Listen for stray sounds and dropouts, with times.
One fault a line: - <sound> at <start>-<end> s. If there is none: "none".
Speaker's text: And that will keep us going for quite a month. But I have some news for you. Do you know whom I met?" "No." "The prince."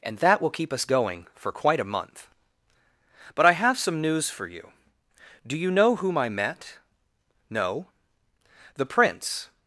none